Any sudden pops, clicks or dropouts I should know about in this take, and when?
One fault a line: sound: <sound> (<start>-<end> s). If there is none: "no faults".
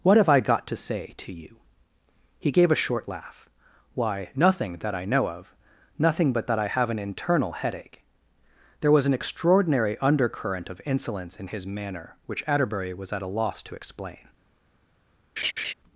sound: laugh (15.4-15.7 s)